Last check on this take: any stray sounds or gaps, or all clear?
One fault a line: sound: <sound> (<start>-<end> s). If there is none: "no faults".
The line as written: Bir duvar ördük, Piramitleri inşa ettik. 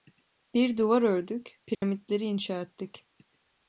sound: dropout (1.7-1.8 s)